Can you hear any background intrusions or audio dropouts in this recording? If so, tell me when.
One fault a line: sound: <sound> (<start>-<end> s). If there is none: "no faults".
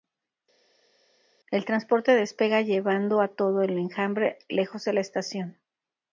no faults